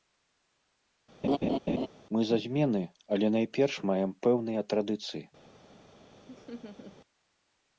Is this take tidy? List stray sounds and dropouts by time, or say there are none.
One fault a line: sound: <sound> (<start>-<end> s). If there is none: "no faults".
sound: laugh (1.2-1.9 s)
sound: laugh (6.3-7.0 s)